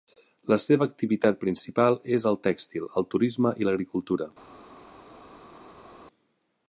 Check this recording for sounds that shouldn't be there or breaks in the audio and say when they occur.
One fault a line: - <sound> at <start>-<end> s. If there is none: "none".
none